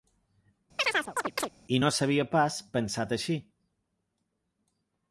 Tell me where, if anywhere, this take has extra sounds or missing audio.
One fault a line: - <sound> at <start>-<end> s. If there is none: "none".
- chirp at 0.8-1.5 s